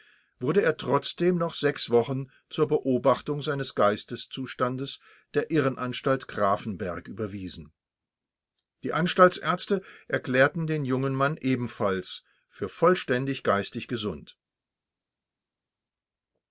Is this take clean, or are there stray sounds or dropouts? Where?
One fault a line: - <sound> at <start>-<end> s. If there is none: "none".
none